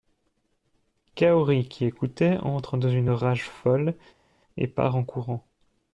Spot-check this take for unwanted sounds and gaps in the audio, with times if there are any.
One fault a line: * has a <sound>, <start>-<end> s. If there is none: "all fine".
all fine